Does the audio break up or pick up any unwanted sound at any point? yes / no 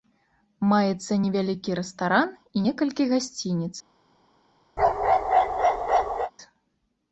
yes